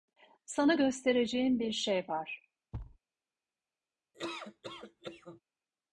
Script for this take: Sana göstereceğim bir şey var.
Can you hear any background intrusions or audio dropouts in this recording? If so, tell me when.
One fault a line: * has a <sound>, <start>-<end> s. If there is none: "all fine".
* has a thud, 2.7-3.0 s
* has a laugh, 4.1-5.4 s